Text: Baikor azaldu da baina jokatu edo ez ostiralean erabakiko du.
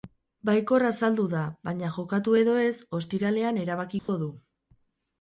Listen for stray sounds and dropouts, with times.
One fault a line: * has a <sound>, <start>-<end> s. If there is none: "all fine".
* has a dropout, 4.0-4.1 s